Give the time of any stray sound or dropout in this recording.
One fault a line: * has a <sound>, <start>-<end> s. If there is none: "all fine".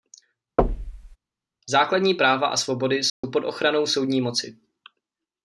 * has a thud, 0.6-1.2 s
* has a dropout, 3.1-3.2 s